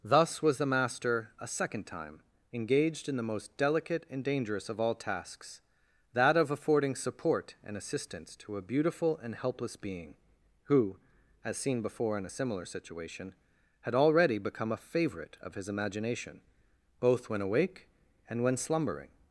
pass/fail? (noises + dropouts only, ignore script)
pass